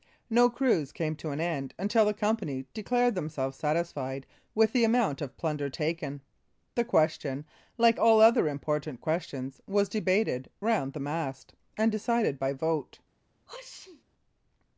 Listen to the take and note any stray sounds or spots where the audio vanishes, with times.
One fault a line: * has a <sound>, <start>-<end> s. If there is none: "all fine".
* has a sneeze, 13.5-14.0 s